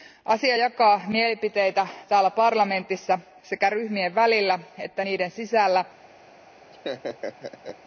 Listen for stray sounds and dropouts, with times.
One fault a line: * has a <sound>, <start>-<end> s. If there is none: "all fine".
* has a laugh, 6.7-7.8 s